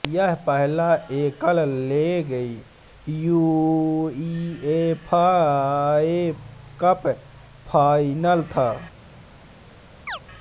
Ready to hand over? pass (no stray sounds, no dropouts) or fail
fail